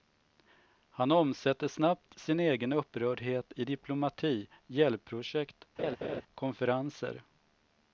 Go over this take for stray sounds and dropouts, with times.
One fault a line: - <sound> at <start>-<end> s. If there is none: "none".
- laugh at 5.8-6.2 s